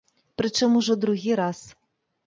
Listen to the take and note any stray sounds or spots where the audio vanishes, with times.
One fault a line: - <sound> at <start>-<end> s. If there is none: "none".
none